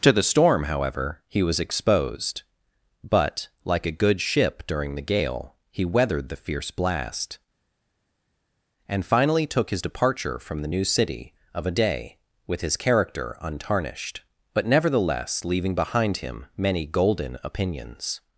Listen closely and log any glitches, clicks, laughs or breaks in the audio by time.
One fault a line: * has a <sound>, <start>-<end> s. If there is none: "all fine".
all fine